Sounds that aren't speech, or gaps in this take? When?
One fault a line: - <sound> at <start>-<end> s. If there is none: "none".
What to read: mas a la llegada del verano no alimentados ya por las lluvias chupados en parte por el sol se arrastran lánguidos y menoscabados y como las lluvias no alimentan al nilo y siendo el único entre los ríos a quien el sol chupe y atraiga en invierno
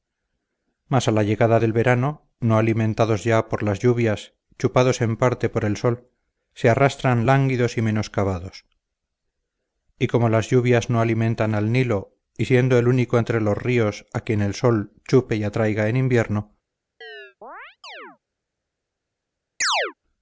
- chirp at 17.0-18.2 s
- chirp at 19.6-19.9 s